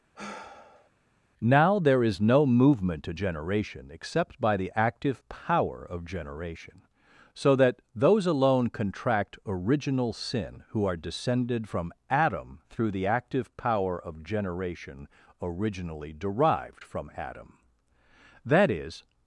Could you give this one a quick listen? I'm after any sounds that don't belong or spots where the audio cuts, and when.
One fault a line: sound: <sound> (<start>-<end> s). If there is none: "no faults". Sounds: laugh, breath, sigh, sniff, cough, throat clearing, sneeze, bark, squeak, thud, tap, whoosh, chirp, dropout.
sound: sigh (0.1-0.9 s)